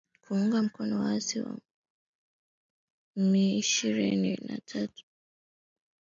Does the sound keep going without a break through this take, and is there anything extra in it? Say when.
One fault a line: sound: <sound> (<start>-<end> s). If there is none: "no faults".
no faults